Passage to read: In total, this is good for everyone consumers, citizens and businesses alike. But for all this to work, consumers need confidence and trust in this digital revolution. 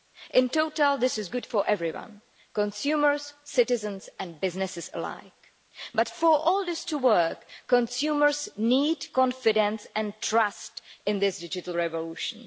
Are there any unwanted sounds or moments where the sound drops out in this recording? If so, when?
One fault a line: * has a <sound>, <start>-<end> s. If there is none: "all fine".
all fine